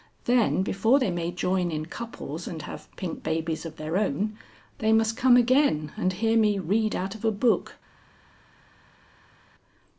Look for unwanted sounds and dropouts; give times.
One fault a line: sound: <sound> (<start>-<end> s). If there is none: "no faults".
no faults